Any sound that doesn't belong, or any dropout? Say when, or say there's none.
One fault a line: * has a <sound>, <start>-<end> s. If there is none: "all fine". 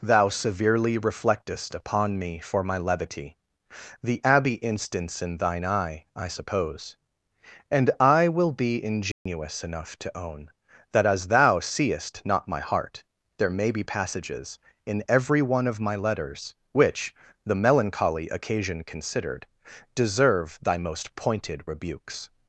* has a dropout, 9.1-9.3 s